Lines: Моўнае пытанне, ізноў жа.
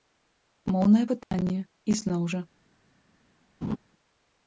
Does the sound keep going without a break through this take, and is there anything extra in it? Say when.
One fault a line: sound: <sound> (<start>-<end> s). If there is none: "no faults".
sound: dropout (1.2-1.3 s)
sound: laugh (3.6-3.8 s)